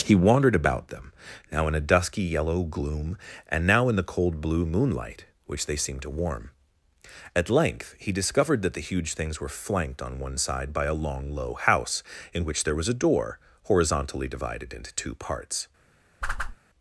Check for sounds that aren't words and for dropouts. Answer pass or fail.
fail